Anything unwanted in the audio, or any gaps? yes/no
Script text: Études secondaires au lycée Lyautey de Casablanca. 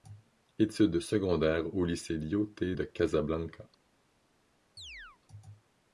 yes